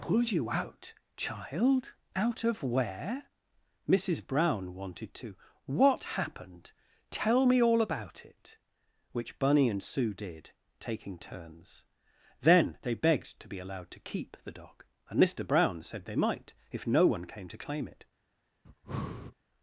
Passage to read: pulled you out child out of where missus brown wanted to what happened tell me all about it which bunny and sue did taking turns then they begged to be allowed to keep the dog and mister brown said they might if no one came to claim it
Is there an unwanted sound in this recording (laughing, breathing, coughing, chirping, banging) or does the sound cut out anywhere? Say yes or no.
yes